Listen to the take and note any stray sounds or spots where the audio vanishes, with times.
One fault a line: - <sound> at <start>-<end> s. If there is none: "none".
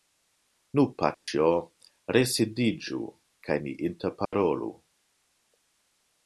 - dropout at 1.1-1.3 s
- dropout at 4.3-4.3 s